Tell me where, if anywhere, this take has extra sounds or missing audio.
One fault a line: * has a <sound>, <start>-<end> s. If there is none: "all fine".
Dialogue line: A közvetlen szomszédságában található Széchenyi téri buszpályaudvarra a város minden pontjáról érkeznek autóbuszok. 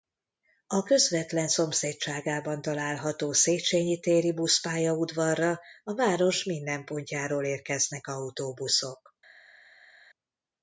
all fine